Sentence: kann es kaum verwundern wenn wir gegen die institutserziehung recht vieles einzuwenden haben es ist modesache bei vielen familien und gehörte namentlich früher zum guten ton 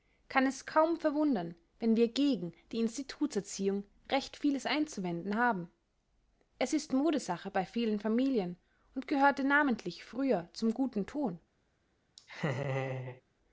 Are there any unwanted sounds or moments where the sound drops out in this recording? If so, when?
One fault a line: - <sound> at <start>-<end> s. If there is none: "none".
- laugh at 12.2-13.2 s